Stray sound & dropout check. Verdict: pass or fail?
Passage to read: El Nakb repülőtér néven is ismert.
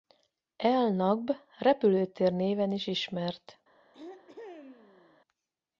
fail